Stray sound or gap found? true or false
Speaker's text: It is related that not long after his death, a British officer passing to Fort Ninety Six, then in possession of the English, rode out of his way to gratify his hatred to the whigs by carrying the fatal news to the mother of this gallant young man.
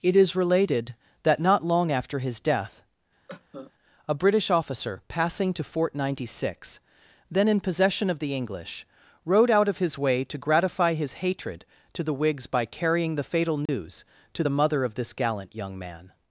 true